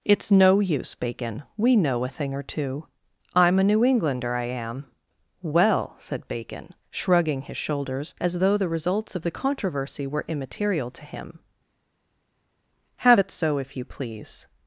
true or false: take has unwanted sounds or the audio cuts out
false